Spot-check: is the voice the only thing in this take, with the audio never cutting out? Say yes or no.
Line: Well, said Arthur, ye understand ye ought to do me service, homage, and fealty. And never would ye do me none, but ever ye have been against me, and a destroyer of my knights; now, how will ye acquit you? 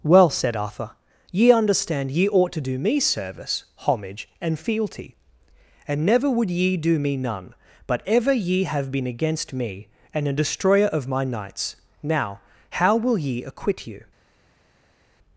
yes